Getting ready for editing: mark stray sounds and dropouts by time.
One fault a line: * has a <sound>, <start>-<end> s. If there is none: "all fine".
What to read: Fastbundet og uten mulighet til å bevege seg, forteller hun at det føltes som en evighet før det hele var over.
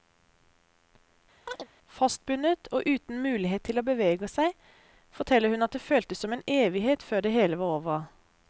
* has a chirp, 1.5-1.7 s